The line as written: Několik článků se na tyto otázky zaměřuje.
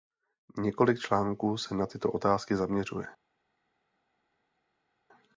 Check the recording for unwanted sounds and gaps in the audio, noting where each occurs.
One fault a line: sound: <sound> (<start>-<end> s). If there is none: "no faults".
no faults